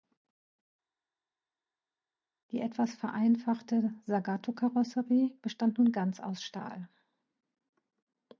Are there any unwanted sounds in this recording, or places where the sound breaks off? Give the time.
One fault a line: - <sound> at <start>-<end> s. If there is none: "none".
none